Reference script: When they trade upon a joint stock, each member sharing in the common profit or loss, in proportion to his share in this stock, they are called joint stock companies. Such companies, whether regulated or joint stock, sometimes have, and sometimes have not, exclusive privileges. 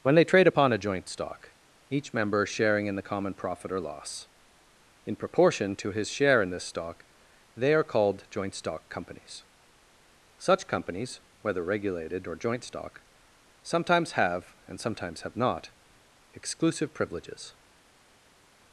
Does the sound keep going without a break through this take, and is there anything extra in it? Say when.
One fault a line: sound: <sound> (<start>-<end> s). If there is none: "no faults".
no faults